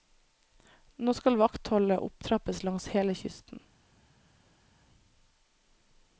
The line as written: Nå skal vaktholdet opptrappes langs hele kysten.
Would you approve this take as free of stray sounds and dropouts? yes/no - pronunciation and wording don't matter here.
yes